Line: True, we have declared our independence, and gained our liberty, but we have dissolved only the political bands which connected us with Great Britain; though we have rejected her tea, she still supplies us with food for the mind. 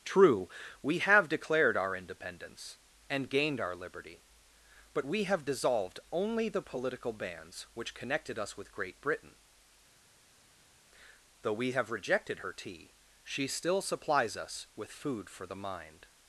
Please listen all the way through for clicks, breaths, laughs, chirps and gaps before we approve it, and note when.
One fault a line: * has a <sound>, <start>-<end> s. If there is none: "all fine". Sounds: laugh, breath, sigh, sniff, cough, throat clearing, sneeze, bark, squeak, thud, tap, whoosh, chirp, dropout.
all fine